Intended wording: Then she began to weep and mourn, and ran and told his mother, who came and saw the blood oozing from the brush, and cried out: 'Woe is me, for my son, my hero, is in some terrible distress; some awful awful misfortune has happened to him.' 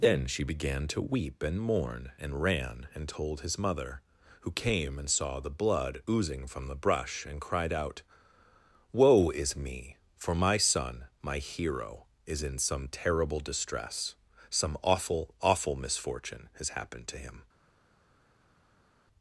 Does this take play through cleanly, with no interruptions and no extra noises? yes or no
yes